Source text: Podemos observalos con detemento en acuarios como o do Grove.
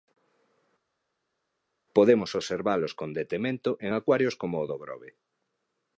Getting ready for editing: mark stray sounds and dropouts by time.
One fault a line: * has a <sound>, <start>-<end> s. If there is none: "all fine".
all fine